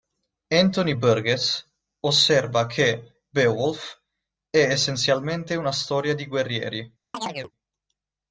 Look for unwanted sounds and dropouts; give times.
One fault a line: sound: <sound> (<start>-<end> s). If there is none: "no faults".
sound: chirp (7.1-7.5 s)